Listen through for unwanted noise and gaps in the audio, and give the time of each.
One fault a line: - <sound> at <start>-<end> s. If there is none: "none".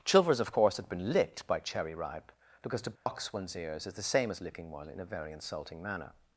- dropout at 3.0-3.1 s